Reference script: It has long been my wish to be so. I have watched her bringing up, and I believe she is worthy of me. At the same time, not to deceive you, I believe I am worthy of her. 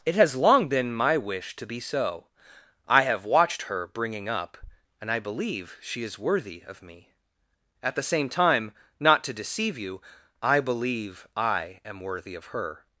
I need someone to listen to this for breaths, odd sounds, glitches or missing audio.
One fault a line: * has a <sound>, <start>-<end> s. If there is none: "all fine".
all fine